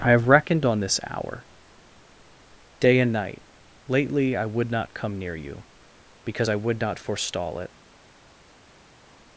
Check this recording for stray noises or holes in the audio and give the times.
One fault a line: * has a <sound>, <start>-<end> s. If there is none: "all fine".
all fine